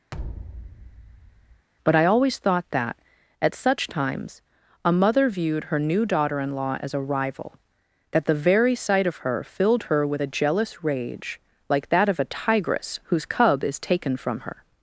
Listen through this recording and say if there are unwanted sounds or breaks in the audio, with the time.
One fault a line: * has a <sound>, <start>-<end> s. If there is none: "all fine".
* has a thud, 0.1-1.7 s